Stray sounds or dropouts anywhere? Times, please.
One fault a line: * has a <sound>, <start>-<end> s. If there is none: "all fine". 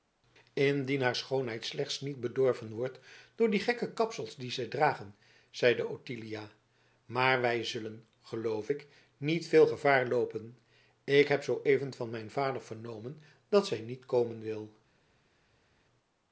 all fine